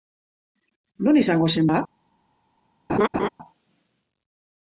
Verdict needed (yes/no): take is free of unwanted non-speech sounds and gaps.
no